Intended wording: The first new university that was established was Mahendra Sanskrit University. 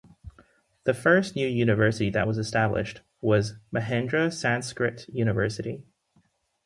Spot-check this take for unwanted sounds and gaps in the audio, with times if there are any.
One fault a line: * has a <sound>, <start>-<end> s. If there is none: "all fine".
all fine